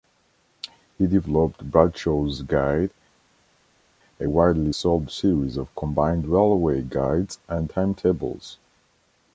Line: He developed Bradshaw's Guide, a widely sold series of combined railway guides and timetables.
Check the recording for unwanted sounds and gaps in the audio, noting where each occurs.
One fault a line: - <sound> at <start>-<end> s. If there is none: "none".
none